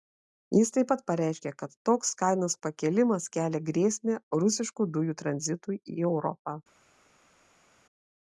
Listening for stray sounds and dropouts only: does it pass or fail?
pass